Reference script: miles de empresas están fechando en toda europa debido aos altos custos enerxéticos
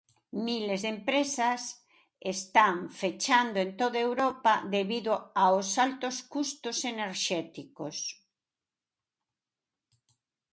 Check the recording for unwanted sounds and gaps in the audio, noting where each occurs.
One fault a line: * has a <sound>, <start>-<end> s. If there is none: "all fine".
all fine